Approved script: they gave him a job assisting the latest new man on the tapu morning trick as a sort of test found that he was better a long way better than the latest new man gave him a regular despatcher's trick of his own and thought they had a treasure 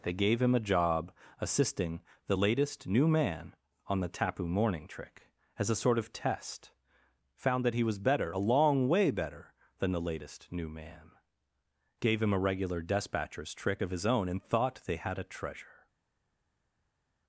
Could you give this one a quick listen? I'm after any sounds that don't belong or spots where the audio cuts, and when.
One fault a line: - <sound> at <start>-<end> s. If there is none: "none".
none